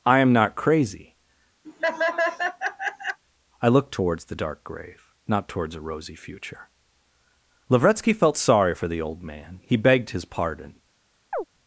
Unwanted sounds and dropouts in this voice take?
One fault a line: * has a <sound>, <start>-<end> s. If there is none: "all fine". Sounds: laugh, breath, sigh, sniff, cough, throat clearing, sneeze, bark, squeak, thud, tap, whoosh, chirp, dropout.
* has a laugh, 1.6-3.2 s
* has a chirp, 11.3-11.4 s